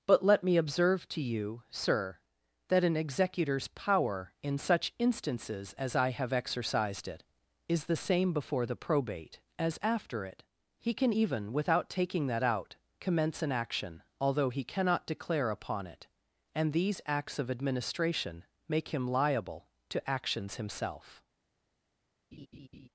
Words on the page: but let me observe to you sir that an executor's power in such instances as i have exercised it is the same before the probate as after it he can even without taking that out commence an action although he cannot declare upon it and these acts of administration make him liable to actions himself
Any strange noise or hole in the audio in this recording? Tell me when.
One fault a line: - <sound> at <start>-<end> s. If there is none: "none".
- laugh at 22.3-22.9 s